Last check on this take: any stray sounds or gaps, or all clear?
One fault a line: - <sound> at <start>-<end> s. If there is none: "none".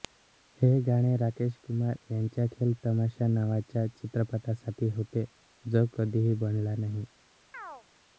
- chirp at 7.5-7.8 s